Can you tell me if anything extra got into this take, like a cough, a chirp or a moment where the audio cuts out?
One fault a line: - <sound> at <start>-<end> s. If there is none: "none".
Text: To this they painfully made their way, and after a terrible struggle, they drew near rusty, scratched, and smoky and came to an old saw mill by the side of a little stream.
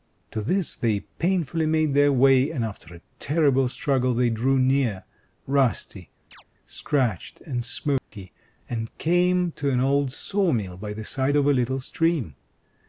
- chirp at 6.3-6.4 s
- dropout at 8.0-8.1 s